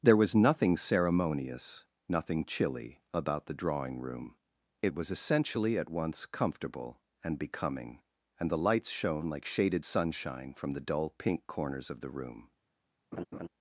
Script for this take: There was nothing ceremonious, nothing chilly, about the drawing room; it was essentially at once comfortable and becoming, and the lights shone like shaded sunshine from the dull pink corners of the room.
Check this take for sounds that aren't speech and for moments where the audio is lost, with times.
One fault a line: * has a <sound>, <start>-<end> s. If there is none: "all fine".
* has a laugh, 13.1-13.5 s